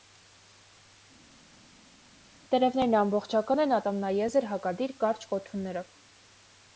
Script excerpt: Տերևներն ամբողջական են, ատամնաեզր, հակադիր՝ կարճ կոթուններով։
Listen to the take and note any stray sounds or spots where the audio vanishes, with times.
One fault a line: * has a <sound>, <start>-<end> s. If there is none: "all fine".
all fine